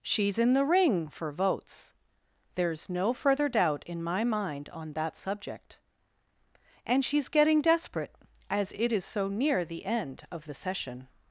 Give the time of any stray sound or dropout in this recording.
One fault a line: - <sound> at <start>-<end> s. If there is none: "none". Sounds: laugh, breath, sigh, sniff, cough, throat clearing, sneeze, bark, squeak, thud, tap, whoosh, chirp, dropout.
none